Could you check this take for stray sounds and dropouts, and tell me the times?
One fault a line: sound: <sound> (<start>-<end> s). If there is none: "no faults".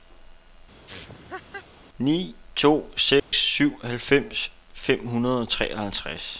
sound: laugh (0.9-1.7 s)
sound: dropout (3.2-3.3 s)